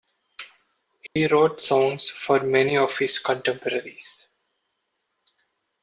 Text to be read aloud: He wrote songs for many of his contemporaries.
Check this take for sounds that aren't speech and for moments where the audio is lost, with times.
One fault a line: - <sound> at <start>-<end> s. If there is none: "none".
- dropout at 1.1-1.2 s